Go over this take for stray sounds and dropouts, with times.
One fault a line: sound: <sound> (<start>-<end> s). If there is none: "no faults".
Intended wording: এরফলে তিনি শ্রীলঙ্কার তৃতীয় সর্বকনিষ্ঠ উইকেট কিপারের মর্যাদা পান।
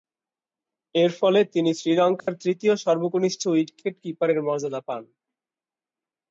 sound: dropout (2.2-2.3 s)